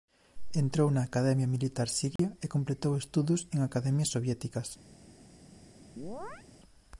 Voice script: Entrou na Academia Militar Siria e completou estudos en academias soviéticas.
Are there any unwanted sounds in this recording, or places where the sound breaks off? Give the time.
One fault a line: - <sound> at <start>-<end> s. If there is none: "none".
- dropout at 2.2-2.2 s
- chirp at 6.0-6.5 s